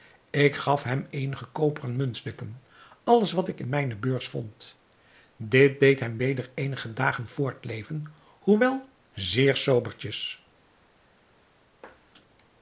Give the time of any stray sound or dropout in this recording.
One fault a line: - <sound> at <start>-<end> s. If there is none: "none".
none